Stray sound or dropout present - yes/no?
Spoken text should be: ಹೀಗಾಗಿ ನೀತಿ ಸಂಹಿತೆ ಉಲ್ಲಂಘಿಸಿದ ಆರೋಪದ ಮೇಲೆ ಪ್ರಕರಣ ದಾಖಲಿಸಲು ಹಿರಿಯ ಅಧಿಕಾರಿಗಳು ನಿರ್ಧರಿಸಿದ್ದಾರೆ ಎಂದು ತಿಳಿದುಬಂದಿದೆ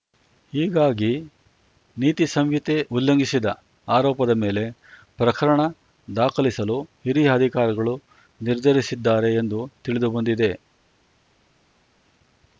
no